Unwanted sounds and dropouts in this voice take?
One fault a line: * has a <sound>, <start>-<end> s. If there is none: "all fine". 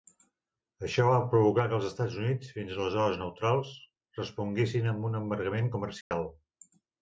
* has a dropout, 6.0-6.1 s